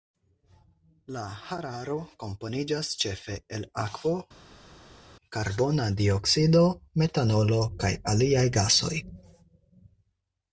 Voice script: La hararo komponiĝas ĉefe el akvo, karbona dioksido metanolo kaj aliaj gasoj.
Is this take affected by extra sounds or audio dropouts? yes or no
no